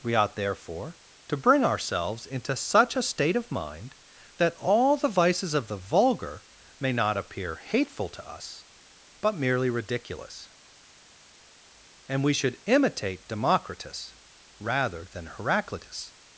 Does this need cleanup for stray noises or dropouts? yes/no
no